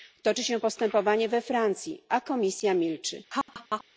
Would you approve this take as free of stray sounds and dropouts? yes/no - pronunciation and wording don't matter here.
no